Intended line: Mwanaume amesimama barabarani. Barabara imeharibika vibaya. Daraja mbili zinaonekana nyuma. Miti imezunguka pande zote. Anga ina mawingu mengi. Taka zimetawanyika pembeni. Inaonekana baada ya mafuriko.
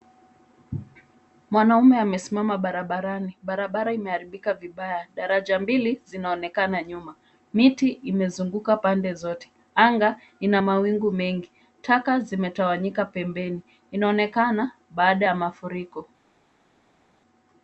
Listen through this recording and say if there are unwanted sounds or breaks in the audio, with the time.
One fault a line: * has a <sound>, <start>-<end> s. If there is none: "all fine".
all fine